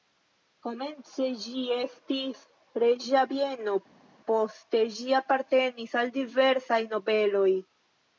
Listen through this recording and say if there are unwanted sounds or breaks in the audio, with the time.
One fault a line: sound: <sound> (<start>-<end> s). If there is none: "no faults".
no faults